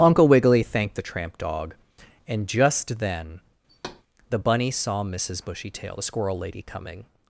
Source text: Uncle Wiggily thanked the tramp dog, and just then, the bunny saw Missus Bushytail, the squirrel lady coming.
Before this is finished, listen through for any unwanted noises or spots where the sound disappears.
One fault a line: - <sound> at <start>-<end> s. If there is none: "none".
- thud at 3.7-4.0 s